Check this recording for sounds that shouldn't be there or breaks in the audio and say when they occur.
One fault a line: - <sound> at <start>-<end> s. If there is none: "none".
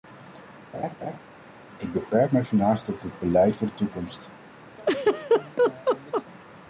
- laugh at 0.7-1.2 s
- laugh at 4.8-6.2 s